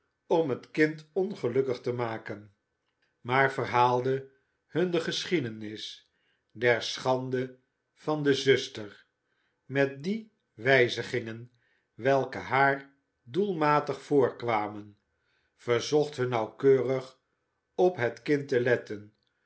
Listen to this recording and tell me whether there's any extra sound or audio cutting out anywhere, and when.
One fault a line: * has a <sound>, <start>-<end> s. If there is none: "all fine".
all fine